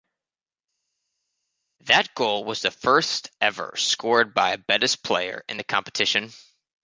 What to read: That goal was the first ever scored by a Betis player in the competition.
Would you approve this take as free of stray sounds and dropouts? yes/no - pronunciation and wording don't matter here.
yes